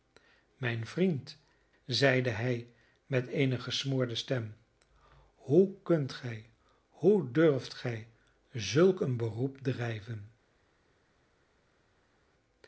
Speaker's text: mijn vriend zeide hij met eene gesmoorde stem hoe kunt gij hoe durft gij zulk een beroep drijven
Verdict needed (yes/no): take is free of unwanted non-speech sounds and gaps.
yes